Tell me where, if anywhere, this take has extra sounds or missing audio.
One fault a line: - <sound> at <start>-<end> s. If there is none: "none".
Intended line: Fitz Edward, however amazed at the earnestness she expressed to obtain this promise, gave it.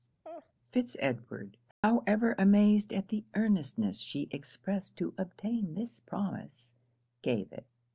- laugh at 0.2-0.5 s
- dropout at 1.7-1.8 s